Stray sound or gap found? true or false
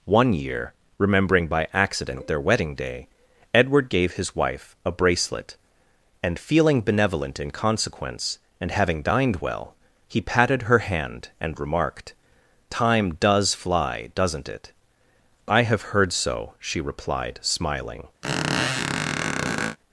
true